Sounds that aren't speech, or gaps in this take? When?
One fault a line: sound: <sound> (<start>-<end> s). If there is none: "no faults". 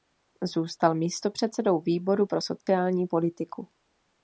sound: dropout (2.6-2.7 s)